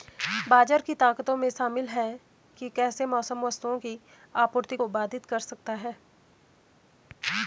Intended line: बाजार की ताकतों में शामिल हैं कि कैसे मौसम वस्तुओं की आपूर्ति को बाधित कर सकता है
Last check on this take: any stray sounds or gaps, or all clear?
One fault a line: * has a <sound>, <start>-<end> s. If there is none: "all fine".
all fine